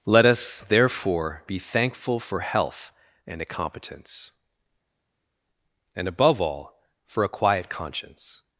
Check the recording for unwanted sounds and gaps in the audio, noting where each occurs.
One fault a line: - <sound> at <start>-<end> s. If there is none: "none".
none